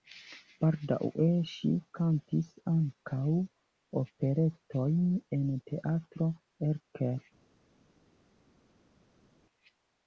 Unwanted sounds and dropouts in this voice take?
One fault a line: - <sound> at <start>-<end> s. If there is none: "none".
none